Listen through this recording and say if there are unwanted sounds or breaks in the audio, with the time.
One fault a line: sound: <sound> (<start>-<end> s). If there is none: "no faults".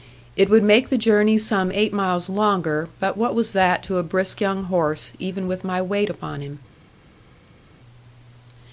no faults